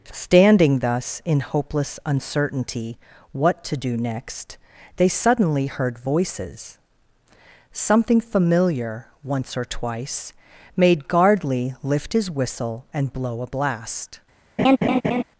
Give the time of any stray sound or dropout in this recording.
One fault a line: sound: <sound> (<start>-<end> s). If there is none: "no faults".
sound: laugh (14.6-15.2 s)